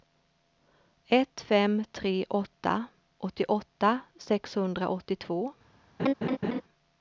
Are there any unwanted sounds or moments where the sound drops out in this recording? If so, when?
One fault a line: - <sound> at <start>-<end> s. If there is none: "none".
- laugh at 6.0-6.6 s